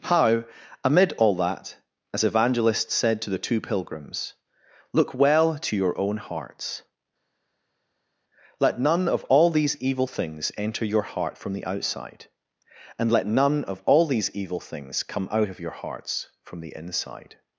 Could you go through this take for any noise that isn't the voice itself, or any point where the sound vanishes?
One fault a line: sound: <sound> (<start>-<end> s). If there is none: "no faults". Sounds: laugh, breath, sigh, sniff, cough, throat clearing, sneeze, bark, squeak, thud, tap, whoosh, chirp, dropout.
no faults